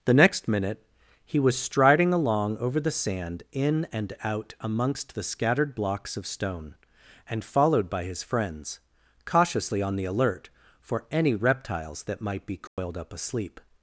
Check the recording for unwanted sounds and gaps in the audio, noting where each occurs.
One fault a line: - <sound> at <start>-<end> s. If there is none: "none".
- dropout at 12.7-12.8 s